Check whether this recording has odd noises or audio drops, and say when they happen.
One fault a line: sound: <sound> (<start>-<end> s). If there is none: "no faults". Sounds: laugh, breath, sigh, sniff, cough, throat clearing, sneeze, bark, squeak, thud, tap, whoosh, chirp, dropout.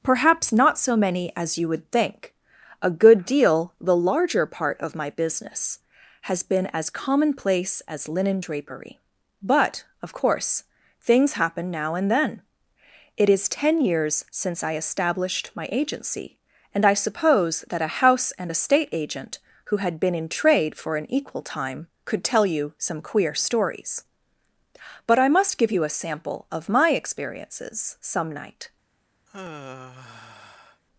sound: sigh (29.3-30.8 s)